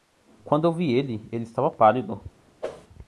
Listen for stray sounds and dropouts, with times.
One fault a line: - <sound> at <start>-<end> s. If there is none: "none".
- whoosh at 2.6-2.9 s